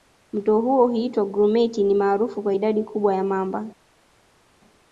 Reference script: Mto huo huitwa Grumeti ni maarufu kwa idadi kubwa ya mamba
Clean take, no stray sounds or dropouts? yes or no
yes